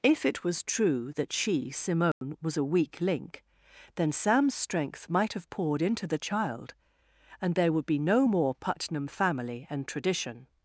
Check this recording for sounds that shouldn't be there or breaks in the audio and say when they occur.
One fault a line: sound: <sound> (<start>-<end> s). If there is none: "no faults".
sound: dropout (2.1-2.2 s)